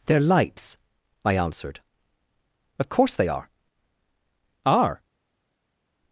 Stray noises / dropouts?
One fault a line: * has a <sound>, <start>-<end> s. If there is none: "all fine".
all fine